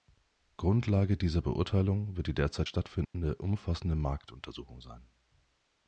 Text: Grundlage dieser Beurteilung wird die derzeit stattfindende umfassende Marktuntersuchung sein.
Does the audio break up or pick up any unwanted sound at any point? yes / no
yes